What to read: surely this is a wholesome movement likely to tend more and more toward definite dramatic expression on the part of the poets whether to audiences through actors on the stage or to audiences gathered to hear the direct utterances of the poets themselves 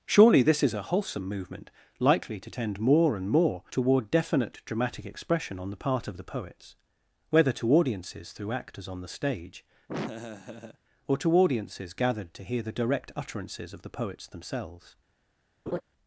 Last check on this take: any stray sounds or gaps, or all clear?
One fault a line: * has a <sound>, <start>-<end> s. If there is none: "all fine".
* has a laugh, 9.9-10.8 s
* has a laugh, 15.7-15.8 s